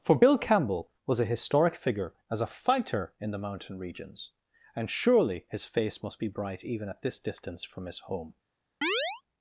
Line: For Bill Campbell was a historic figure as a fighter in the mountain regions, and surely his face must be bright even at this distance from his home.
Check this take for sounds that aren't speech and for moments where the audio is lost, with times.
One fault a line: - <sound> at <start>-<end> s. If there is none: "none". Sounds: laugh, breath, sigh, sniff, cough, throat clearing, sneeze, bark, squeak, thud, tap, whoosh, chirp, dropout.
- chirp at 8.8-9.2 s